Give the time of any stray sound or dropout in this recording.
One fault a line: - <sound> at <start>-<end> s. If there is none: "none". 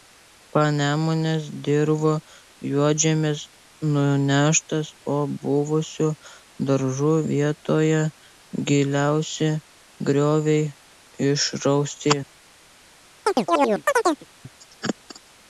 - chirp at 13.3-14.3 s